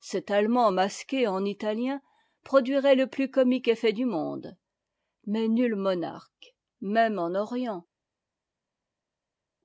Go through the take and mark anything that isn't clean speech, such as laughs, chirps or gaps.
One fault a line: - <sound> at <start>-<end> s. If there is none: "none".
none